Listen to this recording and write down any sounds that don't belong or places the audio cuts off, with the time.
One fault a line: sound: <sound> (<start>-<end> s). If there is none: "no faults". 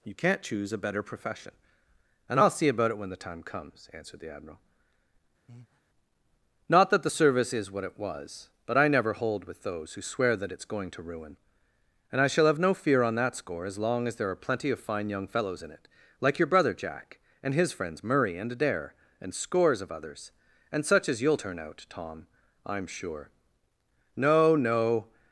sound: breath (5.5-5.8 s)